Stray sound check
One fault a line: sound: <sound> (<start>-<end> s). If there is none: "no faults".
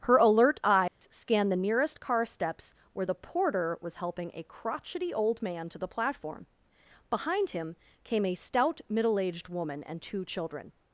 sound: dropout (0.9-1.0 s)